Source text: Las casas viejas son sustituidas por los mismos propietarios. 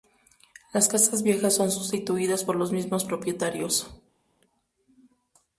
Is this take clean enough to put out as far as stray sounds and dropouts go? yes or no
yes